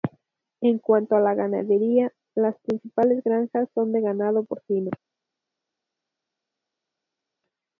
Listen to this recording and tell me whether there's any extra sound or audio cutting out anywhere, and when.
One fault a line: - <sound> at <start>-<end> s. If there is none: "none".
none